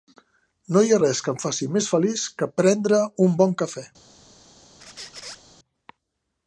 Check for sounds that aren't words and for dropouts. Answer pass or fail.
fail